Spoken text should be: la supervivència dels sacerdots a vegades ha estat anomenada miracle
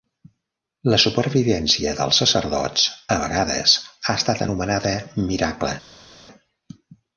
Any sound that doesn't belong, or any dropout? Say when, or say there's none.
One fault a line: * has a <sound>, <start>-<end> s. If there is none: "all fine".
all fine